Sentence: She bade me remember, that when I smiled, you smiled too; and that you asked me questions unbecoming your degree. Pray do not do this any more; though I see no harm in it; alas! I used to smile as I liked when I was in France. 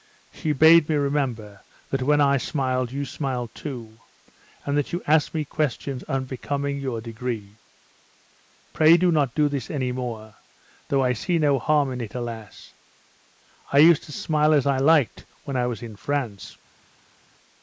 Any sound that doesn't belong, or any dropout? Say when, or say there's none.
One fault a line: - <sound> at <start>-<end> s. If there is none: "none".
none